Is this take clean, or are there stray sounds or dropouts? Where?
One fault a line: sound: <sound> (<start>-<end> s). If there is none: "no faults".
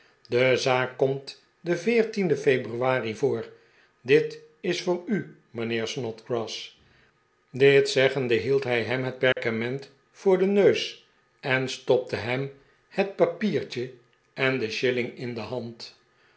sound: dropout (9.3-9.4 s)